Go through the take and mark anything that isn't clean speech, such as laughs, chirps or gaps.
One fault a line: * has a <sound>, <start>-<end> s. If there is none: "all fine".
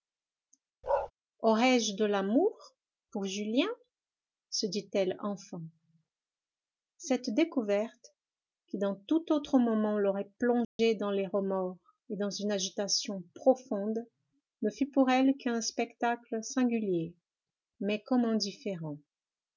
* has a bark, 0.8-1.1 s
* has a dropout, 10.6-10.8 s